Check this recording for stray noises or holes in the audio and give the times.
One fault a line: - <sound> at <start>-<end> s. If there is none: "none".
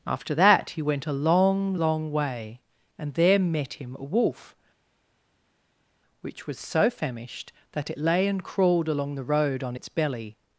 none